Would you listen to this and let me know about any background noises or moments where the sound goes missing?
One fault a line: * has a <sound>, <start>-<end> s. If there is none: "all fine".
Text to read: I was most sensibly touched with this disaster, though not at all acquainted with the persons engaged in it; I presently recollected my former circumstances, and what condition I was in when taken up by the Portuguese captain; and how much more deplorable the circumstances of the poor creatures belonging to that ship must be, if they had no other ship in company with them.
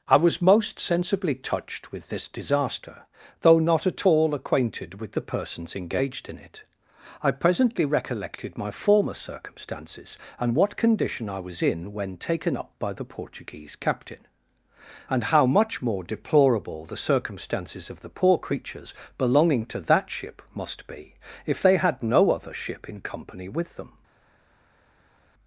all fine